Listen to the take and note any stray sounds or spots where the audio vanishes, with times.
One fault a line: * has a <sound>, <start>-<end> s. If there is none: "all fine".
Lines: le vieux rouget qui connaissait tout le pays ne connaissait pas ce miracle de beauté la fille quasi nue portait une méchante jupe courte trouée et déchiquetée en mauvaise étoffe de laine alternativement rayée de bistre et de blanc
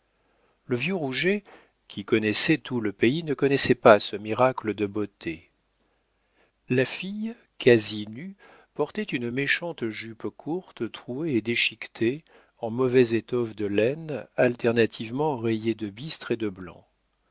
all fine